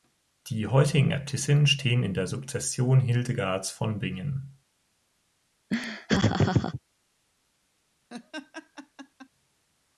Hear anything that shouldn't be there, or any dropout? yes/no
yes